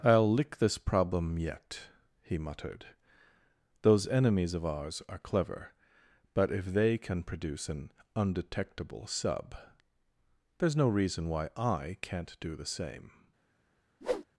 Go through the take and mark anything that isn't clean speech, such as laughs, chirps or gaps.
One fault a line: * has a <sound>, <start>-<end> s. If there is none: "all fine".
* has a whoosh, 14.0-14.3 s